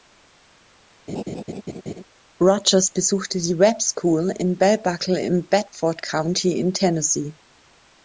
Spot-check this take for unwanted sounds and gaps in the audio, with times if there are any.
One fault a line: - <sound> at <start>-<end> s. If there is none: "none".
- laugh at 1.1-2.0 s